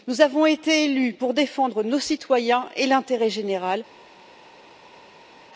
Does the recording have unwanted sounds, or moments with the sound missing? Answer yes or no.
no